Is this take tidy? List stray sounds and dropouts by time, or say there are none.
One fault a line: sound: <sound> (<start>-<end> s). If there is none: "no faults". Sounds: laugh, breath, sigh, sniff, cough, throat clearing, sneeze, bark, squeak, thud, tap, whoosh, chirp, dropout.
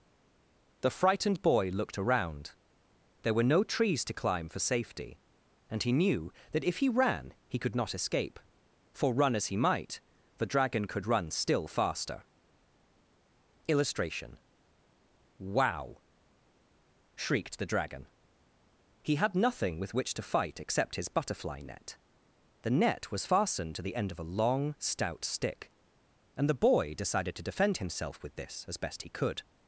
no faults